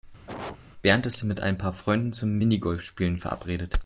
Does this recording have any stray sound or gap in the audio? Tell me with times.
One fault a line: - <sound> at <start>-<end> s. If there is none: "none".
- cough at 0.3-0.6 s